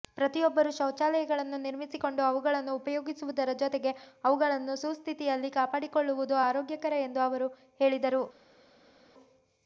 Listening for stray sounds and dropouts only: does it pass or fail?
pass